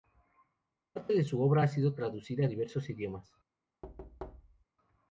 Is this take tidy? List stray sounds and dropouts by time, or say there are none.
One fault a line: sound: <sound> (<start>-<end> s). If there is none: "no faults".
sound: thud (3.8-4.6 s)